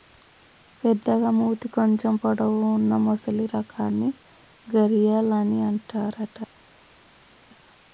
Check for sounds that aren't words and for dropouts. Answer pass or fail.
pass